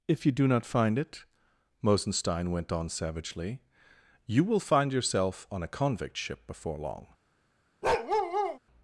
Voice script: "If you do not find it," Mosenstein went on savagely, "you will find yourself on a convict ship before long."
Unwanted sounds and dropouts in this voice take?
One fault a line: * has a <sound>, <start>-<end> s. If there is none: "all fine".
* has a bark, 7.8-8.6 s